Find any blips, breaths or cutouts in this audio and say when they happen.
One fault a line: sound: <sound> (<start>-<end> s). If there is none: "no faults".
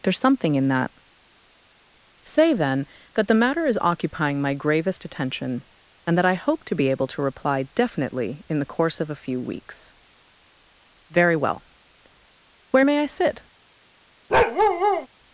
sound: bark (14.3-15.1 s)